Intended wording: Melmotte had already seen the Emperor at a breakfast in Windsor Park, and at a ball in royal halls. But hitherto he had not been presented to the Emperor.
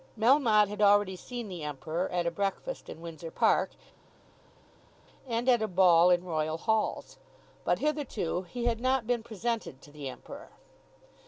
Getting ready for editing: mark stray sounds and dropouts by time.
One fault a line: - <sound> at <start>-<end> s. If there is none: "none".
none